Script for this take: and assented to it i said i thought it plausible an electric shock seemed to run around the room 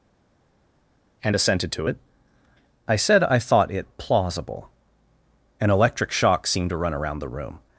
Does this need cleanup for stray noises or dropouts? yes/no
no